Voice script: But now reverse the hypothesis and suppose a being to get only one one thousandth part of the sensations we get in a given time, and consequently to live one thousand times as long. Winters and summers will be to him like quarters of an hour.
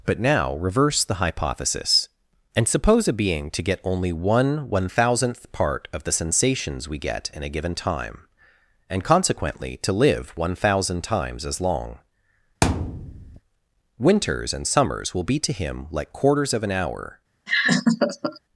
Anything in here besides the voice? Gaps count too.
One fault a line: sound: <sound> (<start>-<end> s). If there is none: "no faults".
sound: thud (12.6-13.4 s)
sound: laugh (17.5-18.4 s)